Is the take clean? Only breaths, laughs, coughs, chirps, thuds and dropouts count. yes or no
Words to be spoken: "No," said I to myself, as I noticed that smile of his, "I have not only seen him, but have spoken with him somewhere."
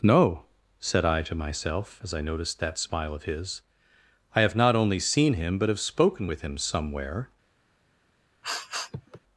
no